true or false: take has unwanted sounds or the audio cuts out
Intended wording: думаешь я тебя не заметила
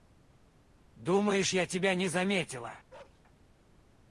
true